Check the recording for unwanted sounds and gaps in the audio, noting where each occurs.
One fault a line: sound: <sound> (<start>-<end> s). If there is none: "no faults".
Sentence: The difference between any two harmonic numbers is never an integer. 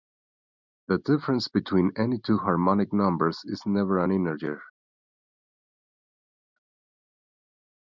no faults